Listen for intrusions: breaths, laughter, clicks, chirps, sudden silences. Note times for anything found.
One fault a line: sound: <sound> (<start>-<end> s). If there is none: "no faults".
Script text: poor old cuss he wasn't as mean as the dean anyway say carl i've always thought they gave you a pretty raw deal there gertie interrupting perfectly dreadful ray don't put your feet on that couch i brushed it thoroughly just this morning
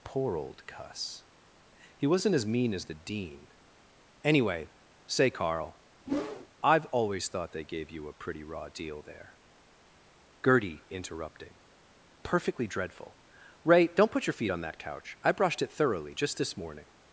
sound: whoosh (6.1-6.5 s)